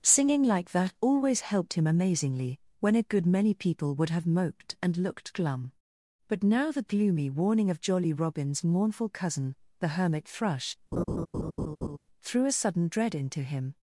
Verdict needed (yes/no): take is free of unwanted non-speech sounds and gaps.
no